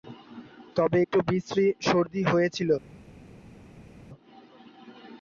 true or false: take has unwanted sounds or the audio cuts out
false